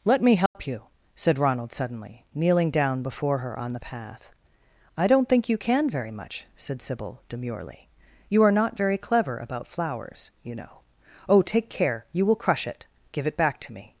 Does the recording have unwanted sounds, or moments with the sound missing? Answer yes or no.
yes